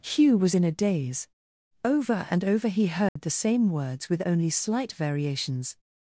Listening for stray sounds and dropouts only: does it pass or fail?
fail